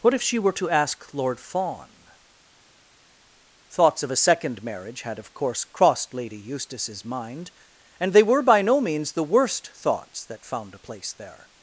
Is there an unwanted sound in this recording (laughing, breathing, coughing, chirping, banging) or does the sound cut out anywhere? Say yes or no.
no